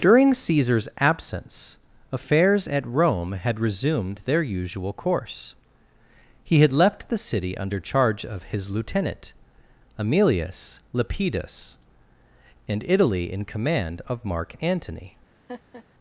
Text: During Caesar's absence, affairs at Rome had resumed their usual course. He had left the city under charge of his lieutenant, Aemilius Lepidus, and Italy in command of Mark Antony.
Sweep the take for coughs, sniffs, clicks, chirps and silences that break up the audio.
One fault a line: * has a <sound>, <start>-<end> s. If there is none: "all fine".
* has a laugh, 15.5-15.8 s